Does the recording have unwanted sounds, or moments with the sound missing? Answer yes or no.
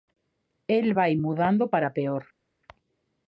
no